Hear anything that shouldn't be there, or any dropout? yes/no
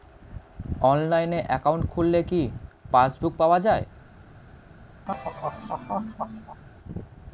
yes